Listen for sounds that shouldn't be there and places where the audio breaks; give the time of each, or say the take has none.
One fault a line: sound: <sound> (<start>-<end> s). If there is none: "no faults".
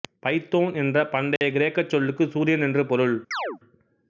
sound: dropout (1.4-1.4 s)
sound: chirp (3.3-3.6 s)